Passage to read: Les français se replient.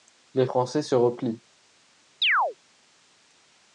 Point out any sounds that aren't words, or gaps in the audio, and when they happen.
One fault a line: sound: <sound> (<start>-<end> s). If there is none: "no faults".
sound: chirp (2.2-2.6 s)